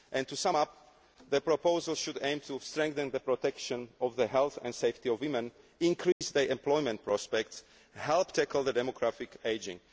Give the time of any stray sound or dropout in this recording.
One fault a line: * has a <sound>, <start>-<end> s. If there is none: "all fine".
* has a dropout, 6.1-6.2 s